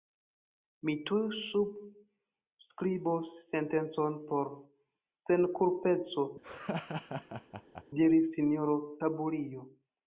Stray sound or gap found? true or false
true